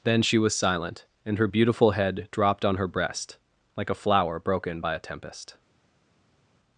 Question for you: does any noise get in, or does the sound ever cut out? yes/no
no